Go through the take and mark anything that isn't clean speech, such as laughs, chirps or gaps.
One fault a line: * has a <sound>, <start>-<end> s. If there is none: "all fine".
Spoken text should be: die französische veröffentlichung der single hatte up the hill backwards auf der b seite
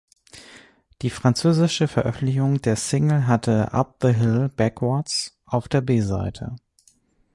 all fine